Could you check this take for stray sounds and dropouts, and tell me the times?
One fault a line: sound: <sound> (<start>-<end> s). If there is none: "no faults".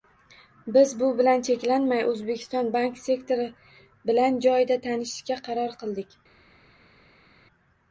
no faults